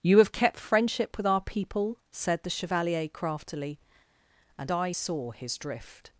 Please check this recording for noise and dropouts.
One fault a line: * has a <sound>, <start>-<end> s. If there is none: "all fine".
all fine